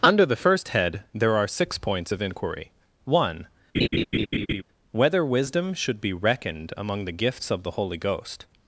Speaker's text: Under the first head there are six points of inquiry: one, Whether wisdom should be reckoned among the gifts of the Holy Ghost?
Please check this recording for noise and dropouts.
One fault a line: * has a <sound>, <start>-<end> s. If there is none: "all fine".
* has a laugh, 3.7-4.6 s